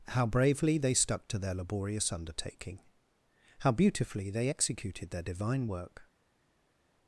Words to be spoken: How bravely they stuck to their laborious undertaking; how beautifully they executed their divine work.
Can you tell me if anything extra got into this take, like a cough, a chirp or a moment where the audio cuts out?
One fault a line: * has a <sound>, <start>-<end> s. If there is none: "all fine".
all fine